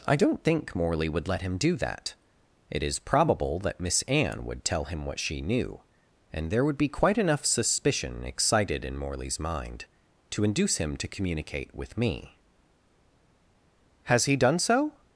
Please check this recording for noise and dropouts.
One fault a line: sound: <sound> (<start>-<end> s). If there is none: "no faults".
no faults